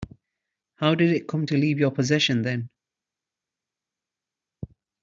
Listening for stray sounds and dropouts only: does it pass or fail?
pass